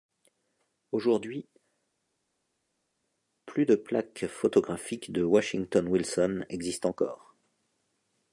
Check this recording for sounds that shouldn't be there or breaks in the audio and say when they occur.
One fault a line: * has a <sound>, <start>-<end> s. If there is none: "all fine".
all fine